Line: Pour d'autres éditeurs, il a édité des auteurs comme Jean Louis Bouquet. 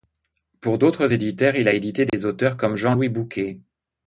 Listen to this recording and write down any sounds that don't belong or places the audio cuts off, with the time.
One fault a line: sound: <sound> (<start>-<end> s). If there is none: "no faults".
sound: dropout (2.1-2.1 s)